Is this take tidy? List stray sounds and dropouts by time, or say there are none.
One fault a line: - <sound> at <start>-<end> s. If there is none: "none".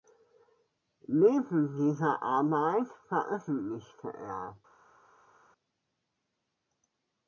none